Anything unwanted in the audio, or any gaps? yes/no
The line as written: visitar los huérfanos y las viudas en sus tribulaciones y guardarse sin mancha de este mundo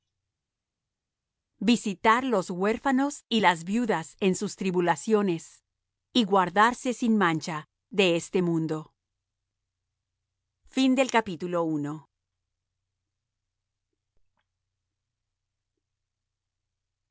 no